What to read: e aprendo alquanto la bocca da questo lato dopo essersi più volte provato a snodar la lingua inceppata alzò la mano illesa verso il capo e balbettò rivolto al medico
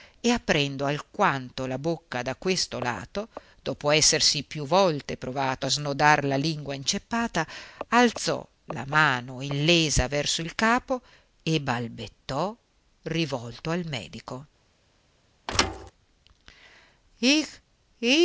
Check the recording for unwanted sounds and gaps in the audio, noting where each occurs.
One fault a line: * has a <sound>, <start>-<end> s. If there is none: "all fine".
* has a thud, 15.5-15.9 s